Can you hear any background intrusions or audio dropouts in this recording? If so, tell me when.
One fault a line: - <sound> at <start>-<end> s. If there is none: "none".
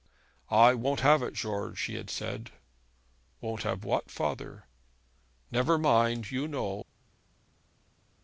none